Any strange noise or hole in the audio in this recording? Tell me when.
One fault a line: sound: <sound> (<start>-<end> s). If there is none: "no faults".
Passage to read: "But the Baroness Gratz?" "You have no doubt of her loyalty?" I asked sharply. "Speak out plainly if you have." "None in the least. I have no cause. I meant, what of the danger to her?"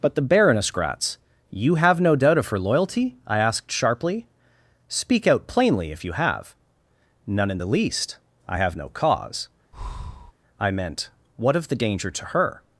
sound: breath (9.7-10.3 s)